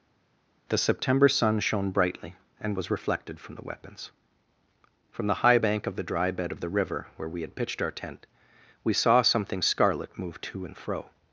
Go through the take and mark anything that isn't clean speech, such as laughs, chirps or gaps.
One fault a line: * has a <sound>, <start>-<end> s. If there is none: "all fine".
all fine